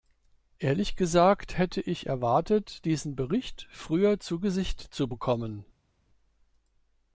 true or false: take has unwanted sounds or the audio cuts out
false